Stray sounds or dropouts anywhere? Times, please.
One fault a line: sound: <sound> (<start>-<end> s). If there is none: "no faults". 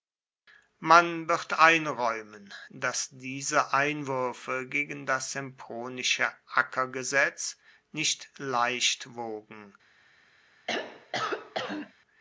sound: throat clearing (10.7-11.9 s)